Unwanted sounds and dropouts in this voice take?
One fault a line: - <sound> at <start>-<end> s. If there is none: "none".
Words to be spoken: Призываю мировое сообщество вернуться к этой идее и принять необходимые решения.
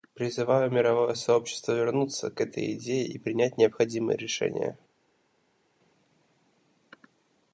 none